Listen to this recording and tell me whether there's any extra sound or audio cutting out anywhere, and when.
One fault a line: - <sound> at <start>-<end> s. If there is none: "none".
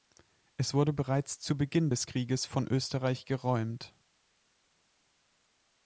none